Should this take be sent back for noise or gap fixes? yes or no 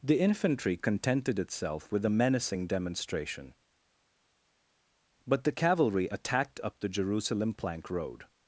no